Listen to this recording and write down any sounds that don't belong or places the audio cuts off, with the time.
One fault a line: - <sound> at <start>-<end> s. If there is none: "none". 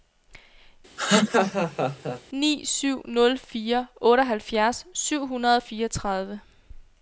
- laugh at 1.0-2.2 s